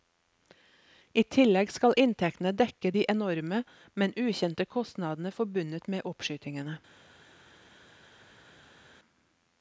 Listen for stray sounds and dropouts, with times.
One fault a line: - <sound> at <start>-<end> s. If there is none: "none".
none